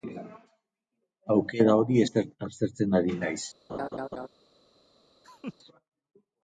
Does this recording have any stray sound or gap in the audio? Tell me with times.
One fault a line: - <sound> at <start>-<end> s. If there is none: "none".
- laugh at 3.7-4.3 s
- laugh at 5.2-5.5 s